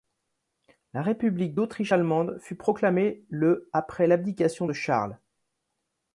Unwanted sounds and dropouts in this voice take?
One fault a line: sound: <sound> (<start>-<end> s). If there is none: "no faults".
no faults